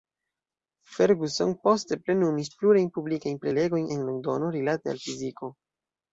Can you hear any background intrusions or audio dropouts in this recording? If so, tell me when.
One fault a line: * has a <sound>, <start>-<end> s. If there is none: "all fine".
all fine